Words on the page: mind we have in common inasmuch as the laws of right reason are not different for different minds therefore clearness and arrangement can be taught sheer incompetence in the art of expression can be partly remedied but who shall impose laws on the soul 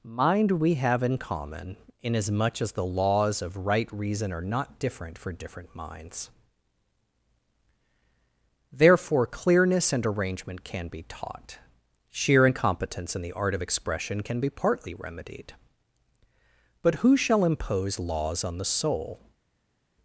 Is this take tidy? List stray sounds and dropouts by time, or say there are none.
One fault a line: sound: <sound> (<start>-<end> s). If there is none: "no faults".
no faults